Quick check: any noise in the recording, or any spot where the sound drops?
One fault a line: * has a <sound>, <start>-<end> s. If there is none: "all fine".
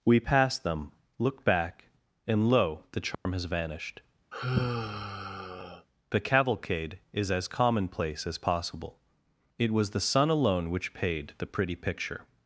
* has a dropout, 3.1-3.3 s
* has a sigh, 4.3-5.9 s